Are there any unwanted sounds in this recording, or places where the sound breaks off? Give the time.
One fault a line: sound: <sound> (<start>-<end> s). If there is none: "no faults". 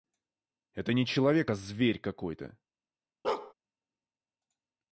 sound: bark (3.2-3.5 s)